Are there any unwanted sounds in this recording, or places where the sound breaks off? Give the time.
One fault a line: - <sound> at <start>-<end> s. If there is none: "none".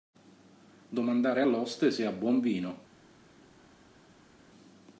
none